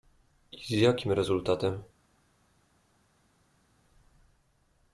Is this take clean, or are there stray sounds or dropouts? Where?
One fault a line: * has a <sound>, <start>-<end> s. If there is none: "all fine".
all fine